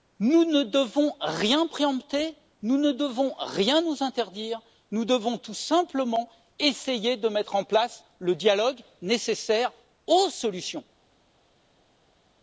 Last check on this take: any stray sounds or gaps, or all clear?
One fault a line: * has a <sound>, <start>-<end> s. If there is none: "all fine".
all fine